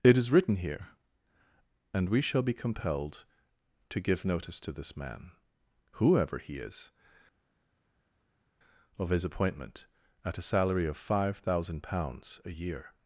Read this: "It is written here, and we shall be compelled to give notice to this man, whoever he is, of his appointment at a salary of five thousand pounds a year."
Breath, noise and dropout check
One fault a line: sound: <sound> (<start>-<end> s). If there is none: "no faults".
no faults